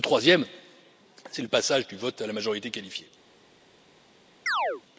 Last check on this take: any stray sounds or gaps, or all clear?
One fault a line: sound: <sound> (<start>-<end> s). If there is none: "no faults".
sound: chirp (4.5-4.8 s)